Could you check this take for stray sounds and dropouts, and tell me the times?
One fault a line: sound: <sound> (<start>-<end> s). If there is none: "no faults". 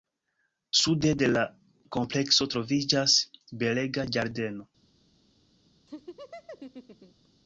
sound: laugh (5.9-7.3 s)